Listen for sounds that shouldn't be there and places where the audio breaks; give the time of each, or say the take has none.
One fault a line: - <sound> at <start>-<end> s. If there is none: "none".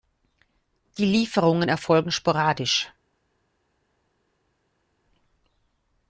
none